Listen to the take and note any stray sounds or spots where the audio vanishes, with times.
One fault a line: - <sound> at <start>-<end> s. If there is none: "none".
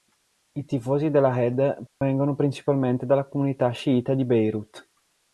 - dropout at 1.9-2.0 s